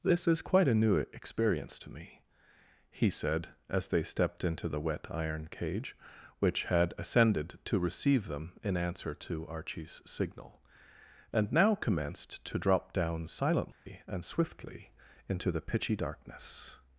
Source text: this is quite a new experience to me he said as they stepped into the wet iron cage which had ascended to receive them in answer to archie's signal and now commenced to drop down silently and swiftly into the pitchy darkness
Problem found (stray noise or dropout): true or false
true